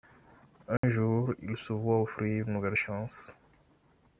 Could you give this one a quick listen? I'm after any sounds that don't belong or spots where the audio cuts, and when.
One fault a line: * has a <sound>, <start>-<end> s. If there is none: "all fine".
* has a dropout, 0.8-0.8 s